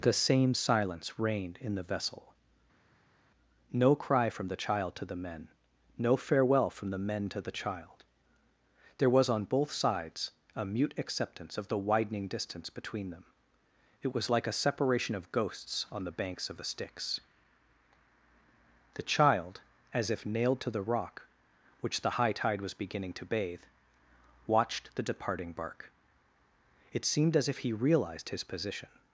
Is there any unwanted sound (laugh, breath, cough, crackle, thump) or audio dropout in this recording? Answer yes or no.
no